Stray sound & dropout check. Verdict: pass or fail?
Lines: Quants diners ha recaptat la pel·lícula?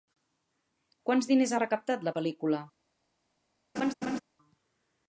fail